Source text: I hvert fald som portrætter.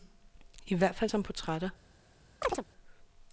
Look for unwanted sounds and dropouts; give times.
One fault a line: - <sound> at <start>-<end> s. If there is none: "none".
- chirp at 2.4-2.6 s